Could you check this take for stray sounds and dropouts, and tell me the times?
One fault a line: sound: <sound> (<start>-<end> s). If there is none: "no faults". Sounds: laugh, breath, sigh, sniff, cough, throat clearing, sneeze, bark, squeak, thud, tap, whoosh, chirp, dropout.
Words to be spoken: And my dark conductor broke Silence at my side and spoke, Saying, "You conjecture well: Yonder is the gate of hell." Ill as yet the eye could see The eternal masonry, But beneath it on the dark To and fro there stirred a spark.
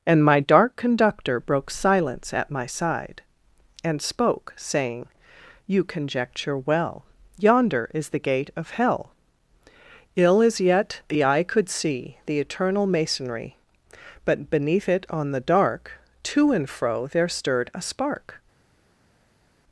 no faults